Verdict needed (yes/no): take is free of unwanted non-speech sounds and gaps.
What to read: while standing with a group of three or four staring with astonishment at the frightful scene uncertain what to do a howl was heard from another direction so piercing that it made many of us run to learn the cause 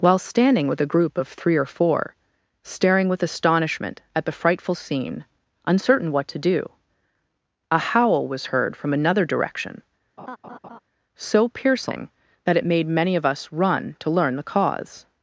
no